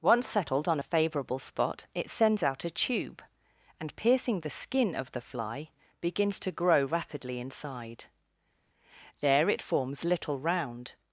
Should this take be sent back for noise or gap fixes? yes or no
no